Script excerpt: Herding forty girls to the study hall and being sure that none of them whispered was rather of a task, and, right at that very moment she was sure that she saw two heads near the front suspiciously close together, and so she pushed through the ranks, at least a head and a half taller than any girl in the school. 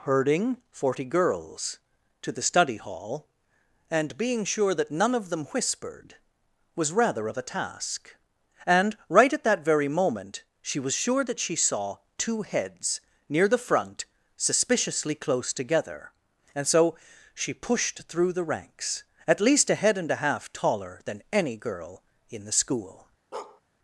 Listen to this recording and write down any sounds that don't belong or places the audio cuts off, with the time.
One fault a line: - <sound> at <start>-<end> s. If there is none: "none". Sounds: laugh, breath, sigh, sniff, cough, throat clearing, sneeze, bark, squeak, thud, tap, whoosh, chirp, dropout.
- bark at 23.3-23.6 s